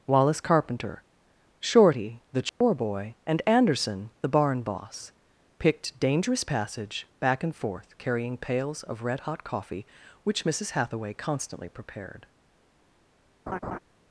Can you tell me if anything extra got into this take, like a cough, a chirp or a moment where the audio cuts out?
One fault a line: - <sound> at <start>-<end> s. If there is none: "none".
- dropout at 2.5-2.6 s
- laugh at 13.5-13.8 s